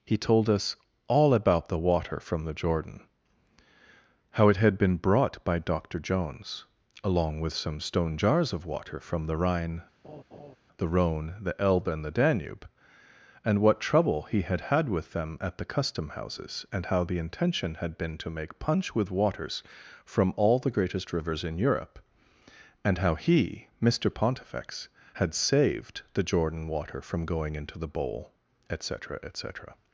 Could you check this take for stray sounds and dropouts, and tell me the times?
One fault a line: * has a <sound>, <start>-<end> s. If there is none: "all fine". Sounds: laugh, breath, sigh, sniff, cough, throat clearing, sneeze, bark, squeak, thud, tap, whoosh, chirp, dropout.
* has a laugh, 10.0-10.6 s